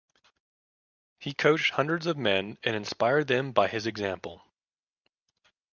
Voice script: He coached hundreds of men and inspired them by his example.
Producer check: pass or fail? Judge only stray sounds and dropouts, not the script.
pass